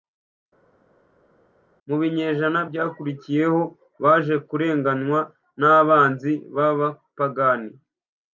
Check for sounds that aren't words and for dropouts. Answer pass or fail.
pass